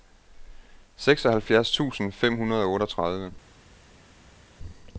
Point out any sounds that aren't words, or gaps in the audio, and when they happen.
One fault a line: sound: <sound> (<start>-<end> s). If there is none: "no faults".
no faults